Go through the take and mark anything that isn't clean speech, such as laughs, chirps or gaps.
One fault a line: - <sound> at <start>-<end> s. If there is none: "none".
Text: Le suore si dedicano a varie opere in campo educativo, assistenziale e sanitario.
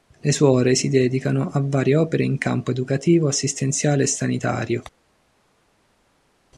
none